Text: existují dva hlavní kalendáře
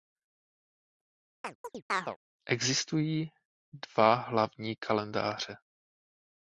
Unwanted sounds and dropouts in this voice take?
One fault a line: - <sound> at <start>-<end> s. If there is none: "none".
- chirp at 1.4-2.2 s